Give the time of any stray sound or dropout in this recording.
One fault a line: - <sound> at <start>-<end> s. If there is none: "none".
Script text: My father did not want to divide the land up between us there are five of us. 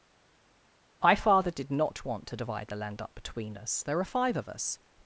none